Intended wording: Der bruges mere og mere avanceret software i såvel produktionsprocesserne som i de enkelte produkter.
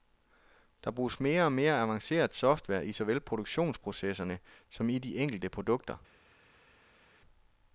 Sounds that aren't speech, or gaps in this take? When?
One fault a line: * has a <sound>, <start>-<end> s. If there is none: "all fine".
all fine